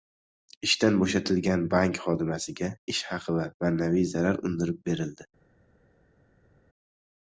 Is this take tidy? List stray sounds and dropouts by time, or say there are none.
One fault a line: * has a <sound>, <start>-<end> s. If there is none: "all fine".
all fine